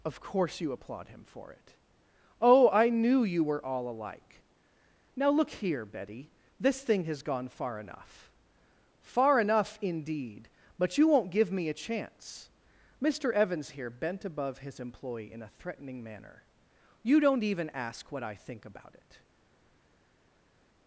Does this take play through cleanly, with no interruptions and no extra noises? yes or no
yes